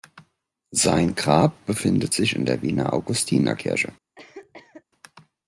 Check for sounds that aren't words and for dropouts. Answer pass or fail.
fail